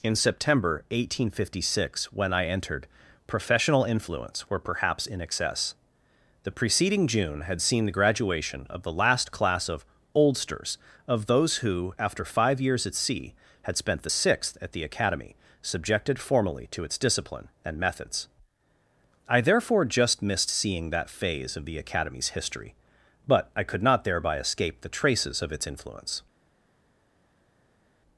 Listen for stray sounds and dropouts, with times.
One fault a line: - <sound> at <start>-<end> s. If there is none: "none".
none